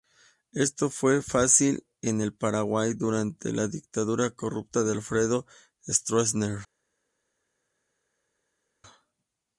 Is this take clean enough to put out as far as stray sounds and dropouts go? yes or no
yes